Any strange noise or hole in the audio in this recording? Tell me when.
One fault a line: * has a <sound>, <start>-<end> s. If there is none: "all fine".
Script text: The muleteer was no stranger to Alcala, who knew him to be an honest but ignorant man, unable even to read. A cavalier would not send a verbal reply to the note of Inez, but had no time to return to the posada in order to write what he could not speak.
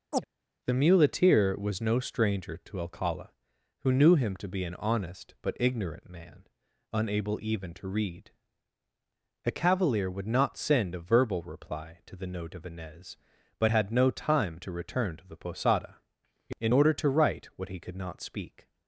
* has a chirp, 0.1-0.3 s